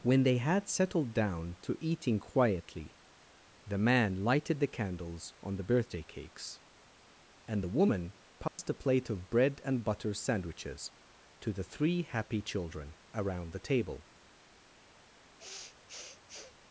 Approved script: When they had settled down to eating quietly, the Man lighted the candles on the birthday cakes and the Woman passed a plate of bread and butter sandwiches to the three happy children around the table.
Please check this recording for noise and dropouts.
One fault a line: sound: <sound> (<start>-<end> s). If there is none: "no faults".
sound: dropout (8.5-8.6 s)
sound: sniff (15.4-16.6 s)